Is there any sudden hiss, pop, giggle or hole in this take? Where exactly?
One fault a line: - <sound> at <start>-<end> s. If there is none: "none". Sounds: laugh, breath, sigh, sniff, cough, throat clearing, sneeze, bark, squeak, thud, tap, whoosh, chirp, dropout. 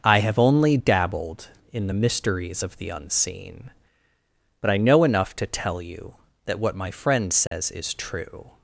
- dropout at 7.5-7.5 s